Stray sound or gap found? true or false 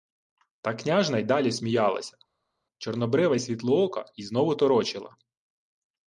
false